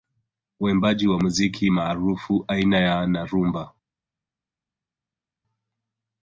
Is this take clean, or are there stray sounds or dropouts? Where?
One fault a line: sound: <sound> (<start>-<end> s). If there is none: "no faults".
no faults